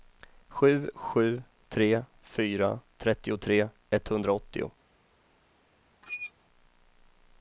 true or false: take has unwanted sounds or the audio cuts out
true